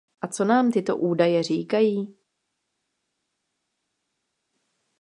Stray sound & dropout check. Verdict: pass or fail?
pass